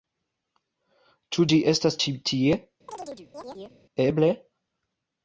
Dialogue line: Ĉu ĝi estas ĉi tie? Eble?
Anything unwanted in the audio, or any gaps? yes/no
yes